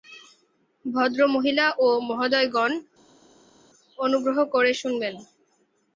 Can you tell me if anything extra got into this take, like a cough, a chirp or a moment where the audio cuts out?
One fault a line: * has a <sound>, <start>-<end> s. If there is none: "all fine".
all fine